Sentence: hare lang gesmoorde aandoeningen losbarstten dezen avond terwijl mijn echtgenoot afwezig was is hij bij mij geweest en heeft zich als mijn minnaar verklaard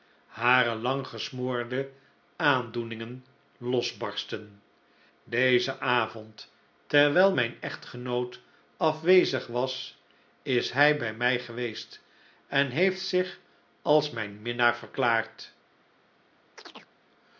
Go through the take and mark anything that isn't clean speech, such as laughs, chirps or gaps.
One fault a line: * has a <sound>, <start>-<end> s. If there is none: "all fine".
* has a chirp, 16.6-16.9 s